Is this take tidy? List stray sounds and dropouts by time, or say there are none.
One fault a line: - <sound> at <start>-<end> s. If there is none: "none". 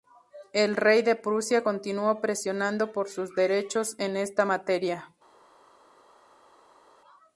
none